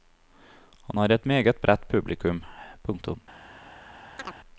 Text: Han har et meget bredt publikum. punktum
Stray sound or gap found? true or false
true